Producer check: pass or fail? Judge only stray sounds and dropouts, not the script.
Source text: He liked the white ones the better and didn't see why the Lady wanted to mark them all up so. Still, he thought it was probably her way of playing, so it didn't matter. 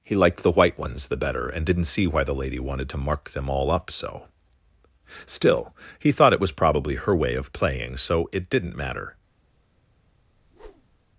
fail